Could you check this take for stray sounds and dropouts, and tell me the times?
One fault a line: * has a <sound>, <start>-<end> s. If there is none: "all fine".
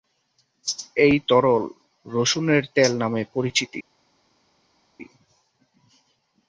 all fine